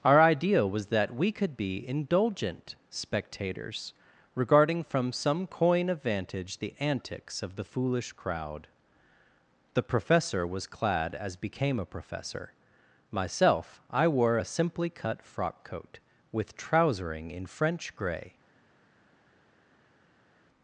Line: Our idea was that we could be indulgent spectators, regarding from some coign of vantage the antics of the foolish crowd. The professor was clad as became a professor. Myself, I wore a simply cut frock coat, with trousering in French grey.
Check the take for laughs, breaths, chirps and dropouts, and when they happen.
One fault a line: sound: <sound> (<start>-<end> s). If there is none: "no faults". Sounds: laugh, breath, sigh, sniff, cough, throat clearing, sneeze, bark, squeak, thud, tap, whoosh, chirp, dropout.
no faults